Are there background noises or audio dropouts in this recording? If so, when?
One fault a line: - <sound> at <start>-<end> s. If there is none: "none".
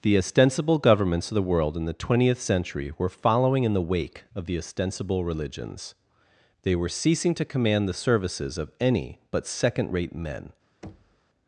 - thud at 10.8-11.2 s